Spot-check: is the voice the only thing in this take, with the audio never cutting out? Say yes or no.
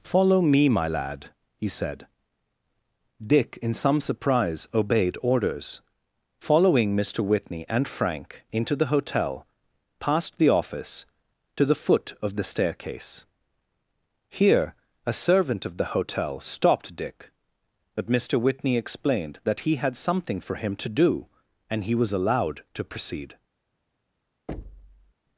no